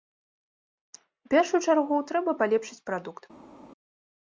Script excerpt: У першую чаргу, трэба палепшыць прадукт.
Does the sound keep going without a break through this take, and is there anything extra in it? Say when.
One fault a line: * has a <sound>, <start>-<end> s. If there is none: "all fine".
all fine